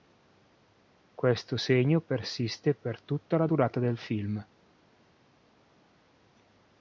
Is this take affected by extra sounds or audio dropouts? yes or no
no